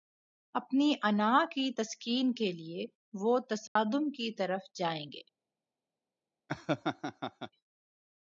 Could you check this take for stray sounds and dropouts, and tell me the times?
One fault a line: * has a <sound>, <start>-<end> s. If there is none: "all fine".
* has a dropout, 3.7-3.8 s
* has a laugh, 6.5-7.5 s